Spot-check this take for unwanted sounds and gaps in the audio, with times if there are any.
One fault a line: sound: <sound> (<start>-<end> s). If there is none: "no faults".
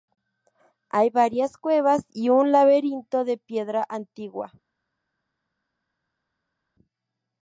no faults